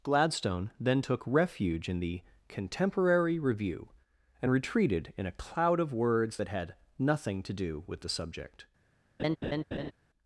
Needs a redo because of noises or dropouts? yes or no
yes